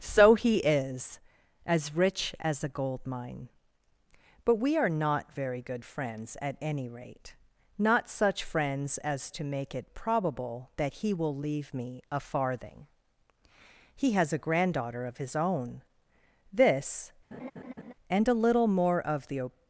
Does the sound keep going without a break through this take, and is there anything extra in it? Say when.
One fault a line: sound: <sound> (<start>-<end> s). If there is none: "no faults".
sound: laugh (17.3-17.9 s)